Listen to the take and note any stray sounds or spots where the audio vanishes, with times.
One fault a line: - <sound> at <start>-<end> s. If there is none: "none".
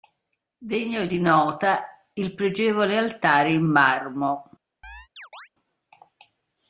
- chirp at 4.8-5.5 s